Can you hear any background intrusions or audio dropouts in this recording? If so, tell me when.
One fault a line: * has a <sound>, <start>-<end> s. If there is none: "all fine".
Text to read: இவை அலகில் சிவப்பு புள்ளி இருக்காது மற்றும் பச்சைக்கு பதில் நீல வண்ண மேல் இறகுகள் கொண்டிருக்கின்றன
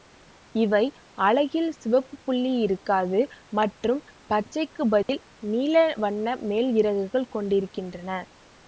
* has a dropout, 5.0-5.1 s